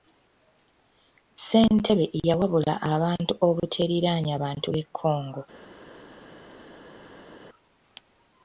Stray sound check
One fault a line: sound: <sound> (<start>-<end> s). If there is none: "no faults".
no faults